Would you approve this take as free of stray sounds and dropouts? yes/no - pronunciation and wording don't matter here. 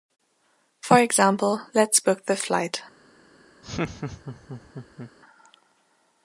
no